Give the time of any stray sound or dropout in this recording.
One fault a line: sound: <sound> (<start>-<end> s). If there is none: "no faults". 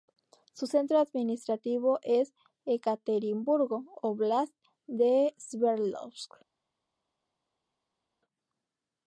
no faults